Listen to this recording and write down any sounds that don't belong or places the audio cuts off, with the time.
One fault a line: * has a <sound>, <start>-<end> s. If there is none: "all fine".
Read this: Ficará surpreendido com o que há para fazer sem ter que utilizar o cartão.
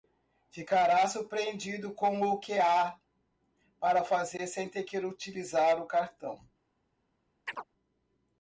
* has a chirp, 7.5-7.6 s